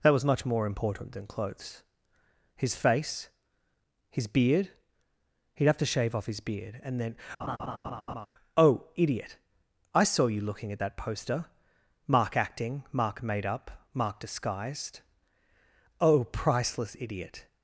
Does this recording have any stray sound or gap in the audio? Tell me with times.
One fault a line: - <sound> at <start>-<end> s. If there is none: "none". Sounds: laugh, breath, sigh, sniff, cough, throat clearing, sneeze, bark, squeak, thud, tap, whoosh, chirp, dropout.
- laugh at 7.4-8.3 s